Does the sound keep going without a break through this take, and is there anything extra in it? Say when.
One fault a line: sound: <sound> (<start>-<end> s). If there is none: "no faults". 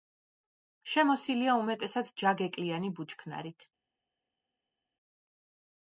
no faults